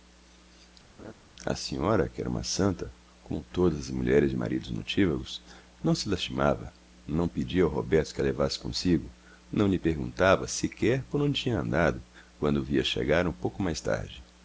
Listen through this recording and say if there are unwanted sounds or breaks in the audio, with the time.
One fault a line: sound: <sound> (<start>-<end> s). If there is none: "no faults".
sound: laugh (1.0-1.1 s)